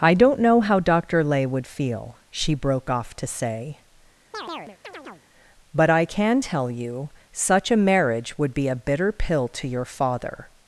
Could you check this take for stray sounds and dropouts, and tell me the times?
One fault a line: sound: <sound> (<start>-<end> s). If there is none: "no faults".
sound: chirp (4.3-5.3 s)